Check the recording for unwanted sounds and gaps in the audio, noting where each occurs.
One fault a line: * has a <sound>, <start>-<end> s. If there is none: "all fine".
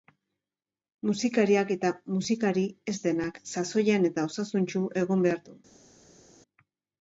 all fine